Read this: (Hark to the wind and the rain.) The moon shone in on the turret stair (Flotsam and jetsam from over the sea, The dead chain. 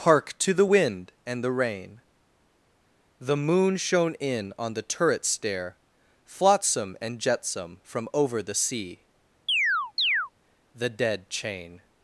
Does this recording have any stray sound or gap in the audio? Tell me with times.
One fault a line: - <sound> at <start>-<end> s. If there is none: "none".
- chirp at 9.5-10.3 s